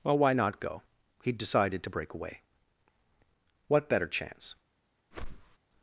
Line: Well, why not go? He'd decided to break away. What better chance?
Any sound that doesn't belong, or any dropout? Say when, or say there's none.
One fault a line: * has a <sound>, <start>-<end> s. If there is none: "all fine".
* has a whoosh, 5.1-5.6 s